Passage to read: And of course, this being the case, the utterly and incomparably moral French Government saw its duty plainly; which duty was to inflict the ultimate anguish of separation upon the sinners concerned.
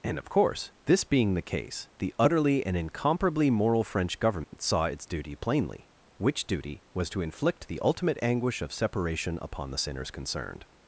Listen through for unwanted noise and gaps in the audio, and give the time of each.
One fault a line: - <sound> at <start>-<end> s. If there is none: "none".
- dropout at 4.4-4.5 s